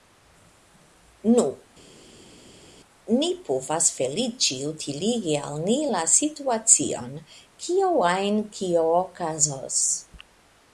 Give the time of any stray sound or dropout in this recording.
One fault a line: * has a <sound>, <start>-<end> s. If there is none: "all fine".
all fine